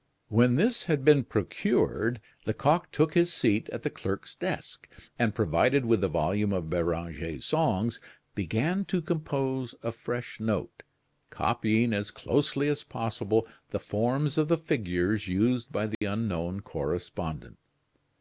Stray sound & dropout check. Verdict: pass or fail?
fail